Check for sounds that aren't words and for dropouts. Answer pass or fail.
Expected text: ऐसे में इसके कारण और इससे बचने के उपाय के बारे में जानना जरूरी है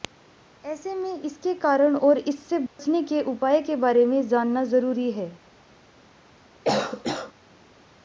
fail